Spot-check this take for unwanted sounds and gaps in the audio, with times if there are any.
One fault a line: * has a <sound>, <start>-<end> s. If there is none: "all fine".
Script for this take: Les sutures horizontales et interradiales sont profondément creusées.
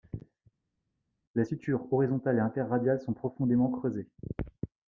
all fine